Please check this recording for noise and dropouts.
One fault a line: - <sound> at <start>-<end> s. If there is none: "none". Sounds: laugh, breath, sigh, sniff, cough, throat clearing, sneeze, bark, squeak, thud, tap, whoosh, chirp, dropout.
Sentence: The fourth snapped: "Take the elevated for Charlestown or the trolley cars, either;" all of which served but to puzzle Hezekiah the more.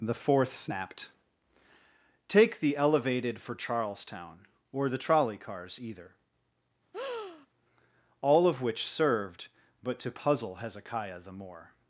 - breath at 6.9-7.5 s